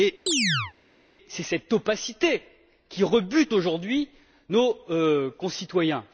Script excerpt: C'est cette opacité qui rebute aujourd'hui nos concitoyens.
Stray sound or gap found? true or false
true